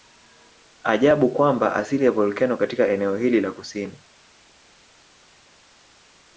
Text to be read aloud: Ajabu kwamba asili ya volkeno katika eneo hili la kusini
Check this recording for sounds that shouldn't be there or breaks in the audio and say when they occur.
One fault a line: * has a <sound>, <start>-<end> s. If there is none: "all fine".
all fine